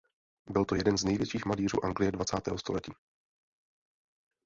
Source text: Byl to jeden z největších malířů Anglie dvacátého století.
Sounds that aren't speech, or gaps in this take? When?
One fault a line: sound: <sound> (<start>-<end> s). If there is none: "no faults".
no faults